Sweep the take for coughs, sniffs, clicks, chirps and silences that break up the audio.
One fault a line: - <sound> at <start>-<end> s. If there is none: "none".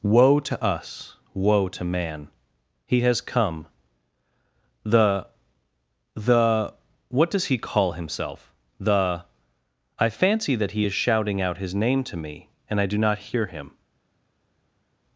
none